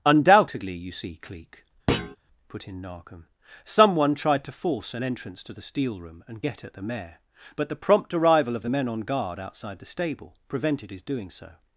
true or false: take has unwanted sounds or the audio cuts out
true